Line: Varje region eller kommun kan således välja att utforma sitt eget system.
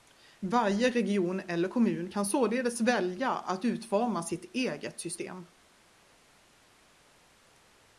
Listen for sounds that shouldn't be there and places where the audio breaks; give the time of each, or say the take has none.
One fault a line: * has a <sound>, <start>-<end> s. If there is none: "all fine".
all fine